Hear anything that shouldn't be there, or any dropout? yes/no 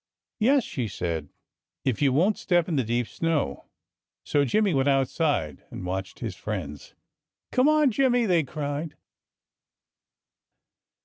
no